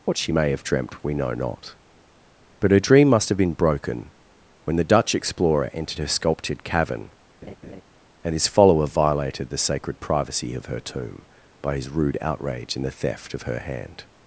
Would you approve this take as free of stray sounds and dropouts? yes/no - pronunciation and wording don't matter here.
no